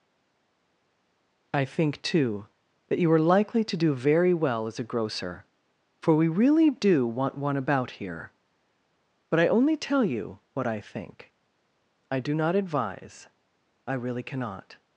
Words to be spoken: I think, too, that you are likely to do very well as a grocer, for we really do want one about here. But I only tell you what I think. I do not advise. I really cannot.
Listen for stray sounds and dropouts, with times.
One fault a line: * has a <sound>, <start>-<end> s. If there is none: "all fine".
all fine